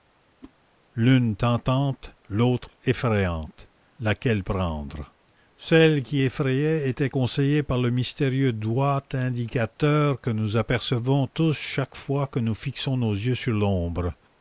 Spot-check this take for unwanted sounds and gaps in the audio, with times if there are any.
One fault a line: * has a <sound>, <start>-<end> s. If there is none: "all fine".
* has a whoosh, 0.4-0.5 s